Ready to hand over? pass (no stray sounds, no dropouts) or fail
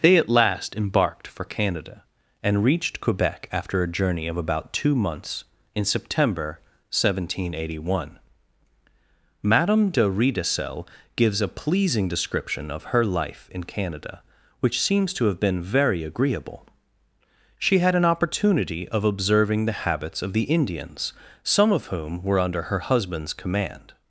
pass